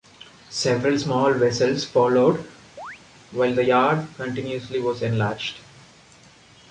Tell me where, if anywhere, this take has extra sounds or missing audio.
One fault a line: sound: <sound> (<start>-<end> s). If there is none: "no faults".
sound: chirp (2.8-3.0 s)